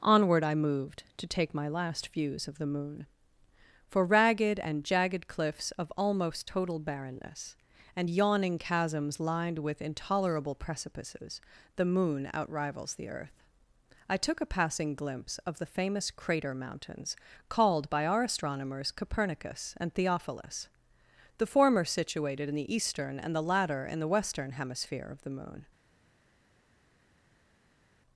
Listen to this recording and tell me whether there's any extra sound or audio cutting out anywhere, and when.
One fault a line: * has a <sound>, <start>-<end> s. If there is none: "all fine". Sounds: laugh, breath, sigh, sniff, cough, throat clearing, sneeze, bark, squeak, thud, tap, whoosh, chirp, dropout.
all fine